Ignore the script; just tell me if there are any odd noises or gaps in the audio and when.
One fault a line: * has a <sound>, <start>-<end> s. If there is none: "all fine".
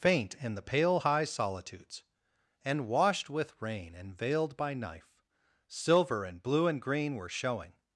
all fine